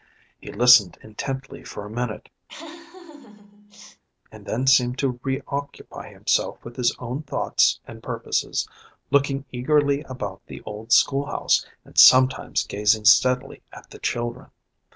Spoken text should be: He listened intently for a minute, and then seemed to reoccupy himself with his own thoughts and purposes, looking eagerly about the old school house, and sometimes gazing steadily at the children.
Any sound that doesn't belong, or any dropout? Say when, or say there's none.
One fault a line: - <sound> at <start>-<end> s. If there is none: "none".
- laugh at 2.5-4.0 s